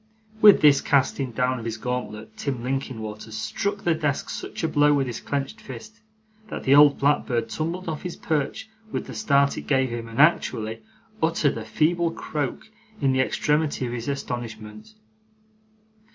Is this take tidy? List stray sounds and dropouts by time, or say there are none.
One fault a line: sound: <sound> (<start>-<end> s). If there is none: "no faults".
no faults